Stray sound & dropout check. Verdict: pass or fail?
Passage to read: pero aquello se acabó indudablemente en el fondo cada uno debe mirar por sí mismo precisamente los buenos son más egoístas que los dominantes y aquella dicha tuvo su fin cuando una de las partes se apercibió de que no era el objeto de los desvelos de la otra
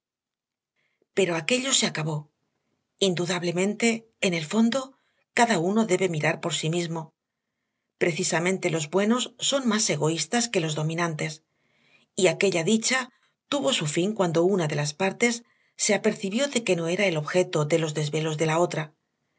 pass